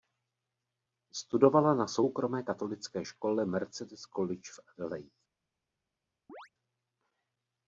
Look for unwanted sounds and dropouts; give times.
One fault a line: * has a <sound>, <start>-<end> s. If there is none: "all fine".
* has a chirp, 6.3-6.5 s